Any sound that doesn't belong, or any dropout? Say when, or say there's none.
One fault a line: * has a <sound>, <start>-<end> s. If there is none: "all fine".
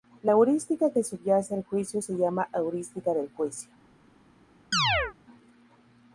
* has a chirp, 4.7-5.1 s